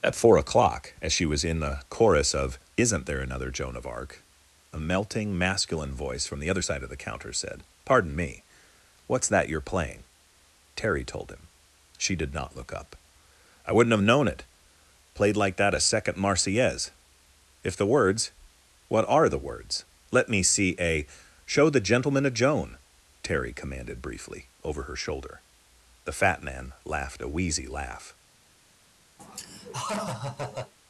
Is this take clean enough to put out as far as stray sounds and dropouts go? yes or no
no